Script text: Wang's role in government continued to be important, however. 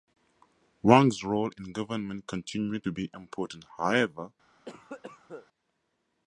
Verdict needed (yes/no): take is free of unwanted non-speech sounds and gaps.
no